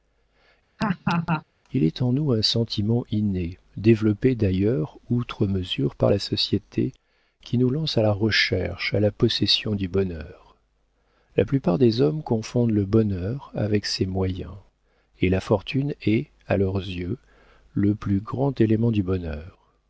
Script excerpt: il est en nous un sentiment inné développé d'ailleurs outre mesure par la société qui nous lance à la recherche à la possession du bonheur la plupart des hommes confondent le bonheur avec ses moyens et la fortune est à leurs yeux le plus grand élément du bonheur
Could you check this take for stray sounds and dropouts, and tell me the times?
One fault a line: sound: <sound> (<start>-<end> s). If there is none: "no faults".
sound: laugh (0.8-1.4 s)